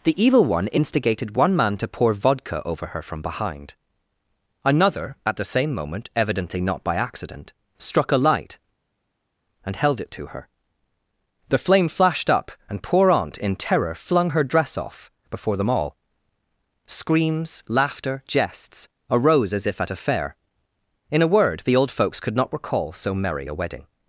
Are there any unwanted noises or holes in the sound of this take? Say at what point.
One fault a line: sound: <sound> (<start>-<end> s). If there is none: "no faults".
no faults